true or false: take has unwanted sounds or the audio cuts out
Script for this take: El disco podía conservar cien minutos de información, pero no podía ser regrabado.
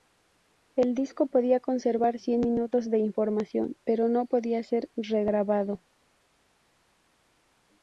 false